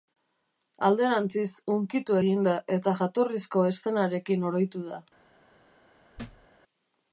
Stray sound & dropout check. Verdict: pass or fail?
fail